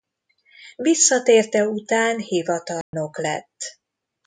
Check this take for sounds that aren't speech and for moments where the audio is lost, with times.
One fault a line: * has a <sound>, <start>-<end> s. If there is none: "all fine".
* has a dropout, 2.8-2.9 s